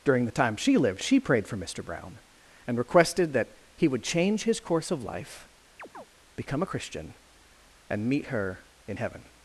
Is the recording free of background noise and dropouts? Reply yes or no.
no